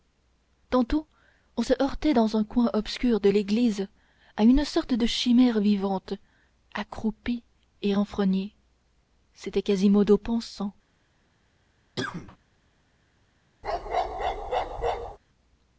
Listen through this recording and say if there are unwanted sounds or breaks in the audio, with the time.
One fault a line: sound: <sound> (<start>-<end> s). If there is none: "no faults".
sound: cough (12.0-12.4 s)
sound: bark (13.6-15.2 s)